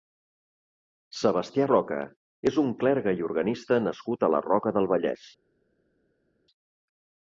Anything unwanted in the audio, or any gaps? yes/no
no